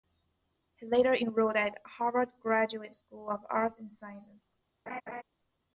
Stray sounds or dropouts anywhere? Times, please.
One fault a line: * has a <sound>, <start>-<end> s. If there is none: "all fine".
* has a laugh, 4.9-5.2 s